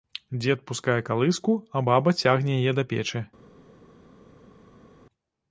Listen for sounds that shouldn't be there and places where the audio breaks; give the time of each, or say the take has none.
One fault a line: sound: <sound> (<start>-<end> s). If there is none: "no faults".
no faults